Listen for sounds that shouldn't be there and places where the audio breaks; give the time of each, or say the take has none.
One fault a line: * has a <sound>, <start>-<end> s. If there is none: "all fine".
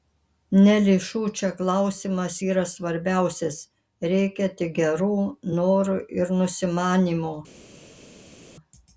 all fine